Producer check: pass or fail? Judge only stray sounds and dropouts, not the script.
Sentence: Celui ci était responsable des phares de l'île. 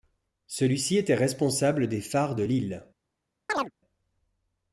fail